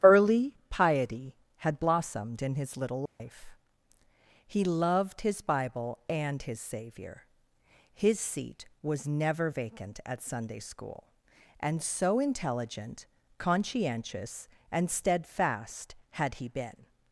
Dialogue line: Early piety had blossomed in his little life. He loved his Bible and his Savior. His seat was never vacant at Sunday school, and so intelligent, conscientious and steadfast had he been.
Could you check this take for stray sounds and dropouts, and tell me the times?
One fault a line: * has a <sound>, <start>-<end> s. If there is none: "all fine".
* has a dropout, 3.1-3.2 s